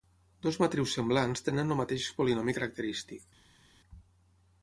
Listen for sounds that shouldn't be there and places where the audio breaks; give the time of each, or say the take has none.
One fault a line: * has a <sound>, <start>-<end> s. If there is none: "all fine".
all fine